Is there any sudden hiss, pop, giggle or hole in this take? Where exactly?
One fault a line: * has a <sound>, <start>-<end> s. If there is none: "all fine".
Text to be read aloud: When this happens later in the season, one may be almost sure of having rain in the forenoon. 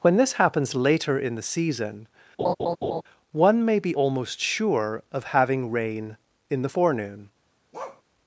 * has a laugh, 2.4-3.0 s
* has a bark, 7.7-8.0 s